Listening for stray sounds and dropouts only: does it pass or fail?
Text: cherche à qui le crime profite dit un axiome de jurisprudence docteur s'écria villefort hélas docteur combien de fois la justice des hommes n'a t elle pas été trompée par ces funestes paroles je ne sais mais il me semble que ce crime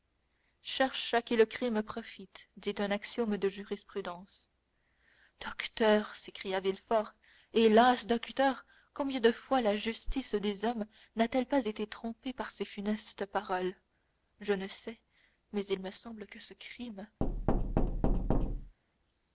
fail